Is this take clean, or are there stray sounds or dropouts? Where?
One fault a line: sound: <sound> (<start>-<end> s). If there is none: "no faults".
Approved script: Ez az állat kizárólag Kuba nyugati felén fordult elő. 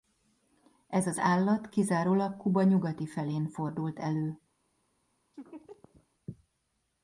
sound: laugh (5.3-6.1 s)